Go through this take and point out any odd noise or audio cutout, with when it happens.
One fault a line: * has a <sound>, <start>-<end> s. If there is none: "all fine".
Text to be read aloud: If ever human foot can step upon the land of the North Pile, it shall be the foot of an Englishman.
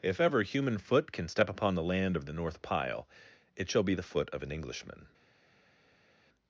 all fine